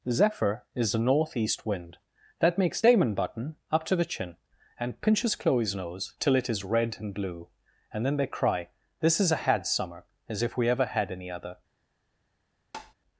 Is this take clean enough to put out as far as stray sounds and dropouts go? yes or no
no